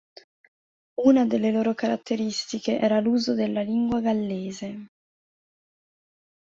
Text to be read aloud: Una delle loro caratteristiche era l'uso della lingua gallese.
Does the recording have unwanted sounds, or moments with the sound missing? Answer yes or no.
no